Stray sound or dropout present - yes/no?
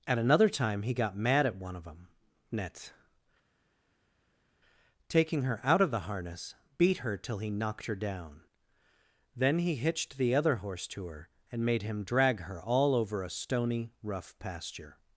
no